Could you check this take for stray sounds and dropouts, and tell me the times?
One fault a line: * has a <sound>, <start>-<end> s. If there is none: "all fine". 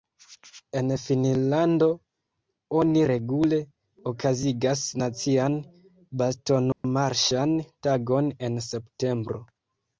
* has a dropout, 6.7-6.8 s